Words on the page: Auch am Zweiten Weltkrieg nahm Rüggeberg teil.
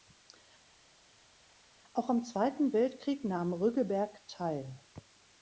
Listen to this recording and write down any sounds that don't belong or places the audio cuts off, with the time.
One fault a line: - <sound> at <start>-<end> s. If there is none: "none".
none